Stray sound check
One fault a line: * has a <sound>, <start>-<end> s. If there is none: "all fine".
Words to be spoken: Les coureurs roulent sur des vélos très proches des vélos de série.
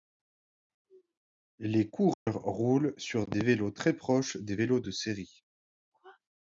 * has a dropout, 2.1-2.3 s